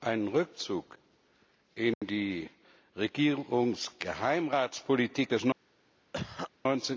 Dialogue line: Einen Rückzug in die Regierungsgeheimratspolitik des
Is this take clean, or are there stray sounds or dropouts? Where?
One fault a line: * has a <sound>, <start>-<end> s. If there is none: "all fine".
* has a dropout, 1.9-2.0 s
* has a cough, 6.1-6.5 s